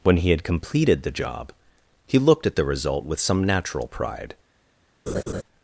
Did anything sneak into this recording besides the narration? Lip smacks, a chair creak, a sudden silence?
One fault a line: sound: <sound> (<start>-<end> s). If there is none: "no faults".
sound: laugh (5.1-5.4 s)